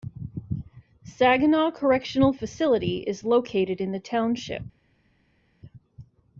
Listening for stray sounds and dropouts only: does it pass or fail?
pass